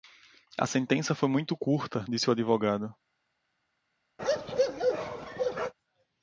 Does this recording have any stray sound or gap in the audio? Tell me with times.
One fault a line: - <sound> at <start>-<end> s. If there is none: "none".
- bark at 4.2-5.7 s